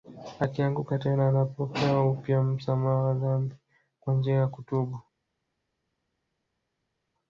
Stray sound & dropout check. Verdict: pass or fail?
pass